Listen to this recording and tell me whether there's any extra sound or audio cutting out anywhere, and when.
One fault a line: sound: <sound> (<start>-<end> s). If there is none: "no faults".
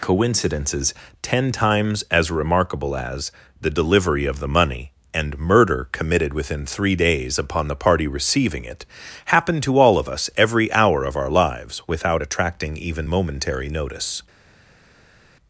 no faults